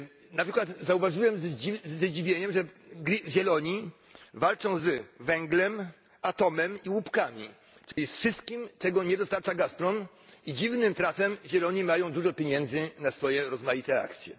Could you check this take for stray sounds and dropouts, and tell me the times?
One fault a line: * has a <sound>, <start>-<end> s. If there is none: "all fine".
* has a dropout, 7.9-8.0 s